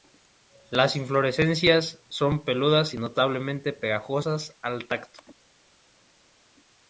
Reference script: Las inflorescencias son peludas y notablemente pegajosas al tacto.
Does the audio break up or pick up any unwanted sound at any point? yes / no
no